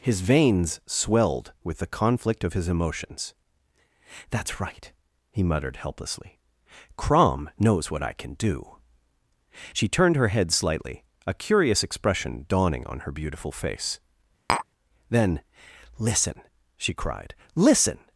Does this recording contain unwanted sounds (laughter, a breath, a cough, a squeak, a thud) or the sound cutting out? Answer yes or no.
yes